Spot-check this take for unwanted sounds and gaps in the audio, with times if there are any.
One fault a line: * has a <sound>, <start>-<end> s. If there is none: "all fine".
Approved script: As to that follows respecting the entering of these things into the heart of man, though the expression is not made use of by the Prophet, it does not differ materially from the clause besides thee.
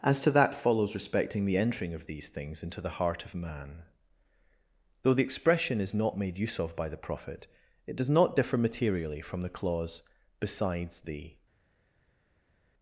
all fine